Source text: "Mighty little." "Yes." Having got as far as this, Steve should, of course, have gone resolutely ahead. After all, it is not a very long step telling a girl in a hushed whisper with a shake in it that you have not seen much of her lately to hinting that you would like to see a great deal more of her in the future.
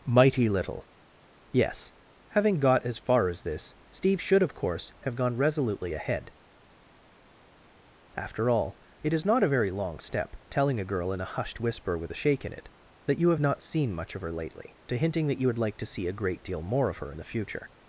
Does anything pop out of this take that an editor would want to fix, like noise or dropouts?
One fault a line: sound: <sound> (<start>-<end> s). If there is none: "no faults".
no faults